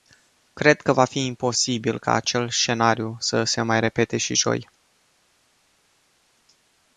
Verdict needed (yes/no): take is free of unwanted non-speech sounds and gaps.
yes